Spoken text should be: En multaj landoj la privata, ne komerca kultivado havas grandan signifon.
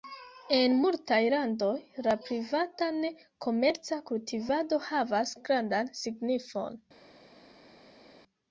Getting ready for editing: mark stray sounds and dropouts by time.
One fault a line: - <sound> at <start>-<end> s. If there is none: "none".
none